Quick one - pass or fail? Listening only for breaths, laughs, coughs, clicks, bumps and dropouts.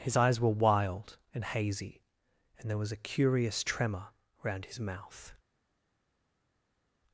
pass